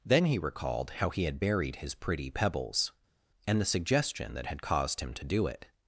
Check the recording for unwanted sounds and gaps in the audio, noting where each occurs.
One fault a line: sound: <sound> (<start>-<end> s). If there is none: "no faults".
no faults